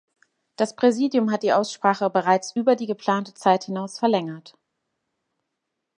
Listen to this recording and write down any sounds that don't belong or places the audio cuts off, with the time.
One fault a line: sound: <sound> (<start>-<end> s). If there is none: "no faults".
no faults